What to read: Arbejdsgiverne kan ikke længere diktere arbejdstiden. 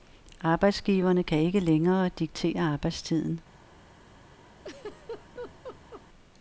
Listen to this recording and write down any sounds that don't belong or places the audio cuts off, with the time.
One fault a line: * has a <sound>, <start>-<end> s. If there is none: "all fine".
* has a laugh, 4.6-6.0 s